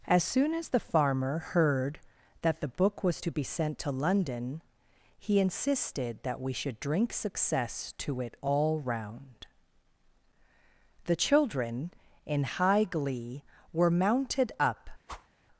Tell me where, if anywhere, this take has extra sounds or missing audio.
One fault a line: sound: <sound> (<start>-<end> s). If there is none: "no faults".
sound: whoosh (15.1-15.3 s)